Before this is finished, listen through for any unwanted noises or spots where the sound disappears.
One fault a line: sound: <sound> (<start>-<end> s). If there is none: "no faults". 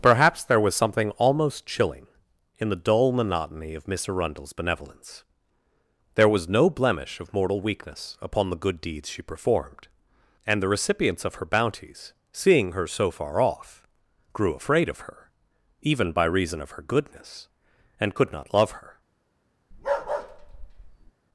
sound: bark (19.7-21.1 s)